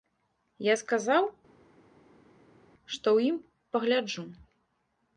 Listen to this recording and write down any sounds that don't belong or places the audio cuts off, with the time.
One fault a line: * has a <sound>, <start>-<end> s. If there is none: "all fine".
all fine